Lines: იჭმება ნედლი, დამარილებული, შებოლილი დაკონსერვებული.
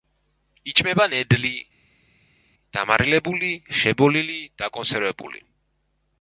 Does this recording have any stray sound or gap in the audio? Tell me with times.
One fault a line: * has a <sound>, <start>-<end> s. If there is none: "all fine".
all fine